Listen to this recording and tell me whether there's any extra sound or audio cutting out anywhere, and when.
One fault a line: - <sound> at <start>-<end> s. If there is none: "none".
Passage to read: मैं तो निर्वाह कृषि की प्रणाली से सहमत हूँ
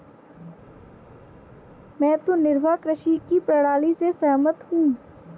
none